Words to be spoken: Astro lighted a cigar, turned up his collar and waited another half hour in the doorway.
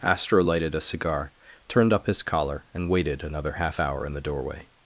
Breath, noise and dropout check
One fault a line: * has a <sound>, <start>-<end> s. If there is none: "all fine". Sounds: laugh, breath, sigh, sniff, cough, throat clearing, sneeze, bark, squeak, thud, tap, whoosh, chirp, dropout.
all fine